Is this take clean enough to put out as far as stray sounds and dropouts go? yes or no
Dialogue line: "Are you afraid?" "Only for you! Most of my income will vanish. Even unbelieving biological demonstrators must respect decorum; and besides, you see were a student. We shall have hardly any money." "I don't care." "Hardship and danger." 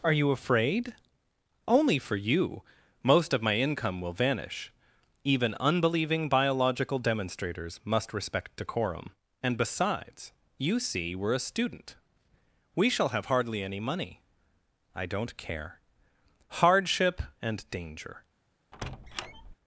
no